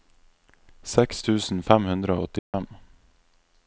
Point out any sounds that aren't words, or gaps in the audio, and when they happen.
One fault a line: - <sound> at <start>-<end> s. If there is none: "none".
- dropout at 2.4-2.5 s